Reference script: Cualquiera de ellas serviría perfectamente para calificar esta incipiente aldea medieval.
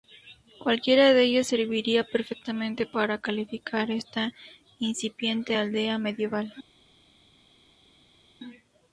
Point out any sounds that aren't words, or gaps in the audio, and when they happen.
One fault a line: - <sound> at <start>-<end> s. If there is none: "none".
none